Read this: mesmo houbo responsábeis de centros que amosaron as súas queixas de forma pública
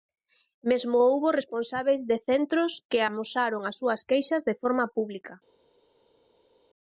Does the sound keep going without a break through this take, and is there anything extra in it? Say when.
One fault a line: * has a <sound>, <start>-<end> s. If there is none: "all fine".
all fine